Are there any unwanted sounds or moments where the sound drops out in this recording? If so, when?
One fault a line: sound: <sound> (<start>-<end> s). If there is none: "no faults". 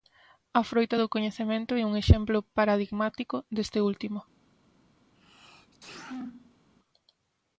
sound: sneeze (5.1-6.7 s)